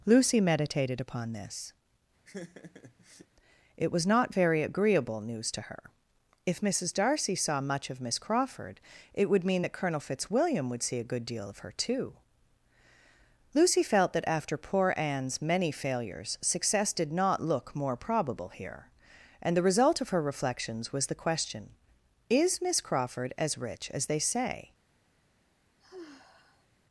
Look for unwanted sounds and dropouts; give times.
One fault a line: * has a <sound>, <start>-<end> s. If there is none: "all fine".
* has a laugh, 2.2-3.3 s
* has a sigh, 25.8-26.7 s